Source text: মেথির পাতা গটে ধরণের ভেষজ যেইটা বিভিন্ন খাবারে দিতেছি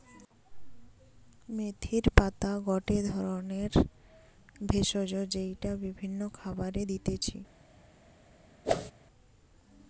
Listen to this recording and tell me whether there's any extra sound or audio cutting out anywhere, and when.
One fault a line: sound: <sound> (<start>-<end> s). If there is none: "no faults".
sound: whoosh (8.6-8.9 s)